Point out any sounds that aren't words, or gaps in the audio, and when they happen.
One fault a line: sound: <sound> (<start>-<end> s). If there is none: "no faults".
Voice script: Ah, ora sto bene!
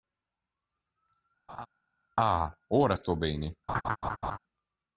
sound: laugh (1.5-1.7 s)
sound: laugh (3.7-4.4 s)